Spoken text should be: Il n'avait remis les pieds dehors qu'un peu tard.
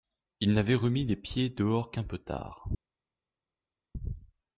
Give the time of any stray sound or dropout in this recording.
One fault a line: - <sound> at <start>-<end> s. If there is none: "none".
none